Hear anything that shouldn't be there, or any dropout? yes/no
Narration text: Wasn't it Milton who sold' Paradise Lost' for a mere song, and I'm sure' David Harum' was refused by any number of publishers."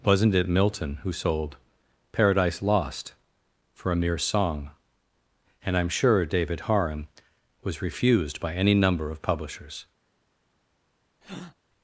yes